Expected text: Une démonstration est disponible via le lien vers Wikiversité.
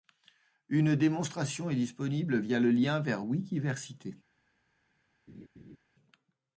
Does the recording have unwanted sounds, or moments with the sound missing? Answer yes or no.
yes